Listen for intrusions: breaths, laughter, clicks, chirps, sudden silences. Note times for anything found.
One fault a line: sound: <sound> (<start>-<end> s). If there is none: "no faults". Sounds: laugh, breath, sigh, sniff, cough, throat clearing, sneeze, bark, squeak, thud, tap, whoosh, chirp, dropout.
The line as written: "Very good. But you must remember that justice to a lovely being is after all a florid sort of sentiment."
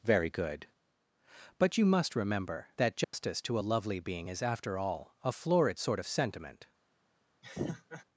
sound: dropout (3.0-3.1 s)
sound: laugh (7.4-8.0 s)